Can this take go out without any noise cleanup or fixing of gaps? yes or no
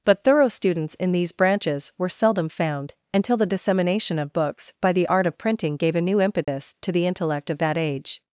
no